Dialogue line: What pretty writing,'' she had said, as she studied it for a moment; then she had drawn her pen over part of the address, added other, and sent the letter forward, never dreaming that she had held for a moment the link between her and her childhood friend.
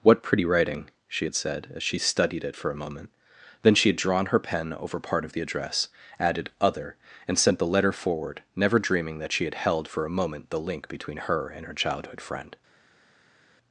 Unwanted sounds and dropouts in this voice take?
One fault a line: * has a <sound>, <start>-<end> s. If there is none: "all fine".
all fine